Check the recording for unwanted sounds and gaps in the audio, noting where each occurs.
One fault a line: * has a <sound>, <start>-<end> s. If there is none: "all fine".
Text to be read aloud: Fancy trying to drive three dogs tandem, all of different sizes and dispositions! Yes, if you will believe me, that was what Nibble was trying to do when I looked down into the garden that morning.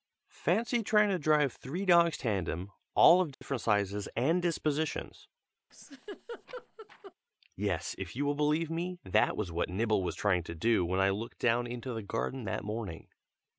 * has a dropout, 3.3-3.4 s
* has a laugh, 5.7-7.1 s